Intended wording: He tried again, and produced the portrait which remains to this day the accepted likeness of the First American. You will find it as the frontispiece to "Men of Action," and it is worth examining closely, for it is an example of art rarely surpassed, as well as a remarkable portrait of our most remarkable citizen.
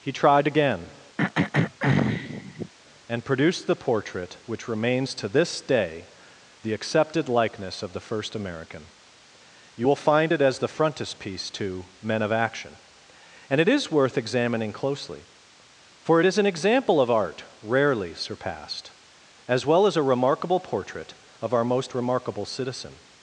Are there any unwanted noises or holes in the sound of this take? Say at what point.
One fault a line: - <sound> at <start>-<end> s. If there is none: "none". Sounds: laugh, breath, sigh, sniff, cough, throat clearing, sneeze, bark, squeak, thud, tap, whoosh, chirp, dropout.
- throat clearing at 1.2-2.7 s